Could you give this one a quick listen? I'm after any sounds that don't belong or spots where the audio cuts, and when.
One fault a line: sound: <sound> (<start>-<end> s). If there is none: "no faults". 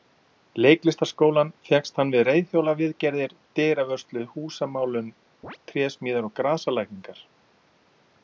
sound: chirp (5.4-5.6 s)